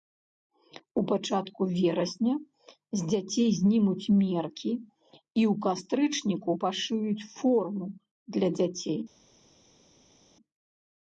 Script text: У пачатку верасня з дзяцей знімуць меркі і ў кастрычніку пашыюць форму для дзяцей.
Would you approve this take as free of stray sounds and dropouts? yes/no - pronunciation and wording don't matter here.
yes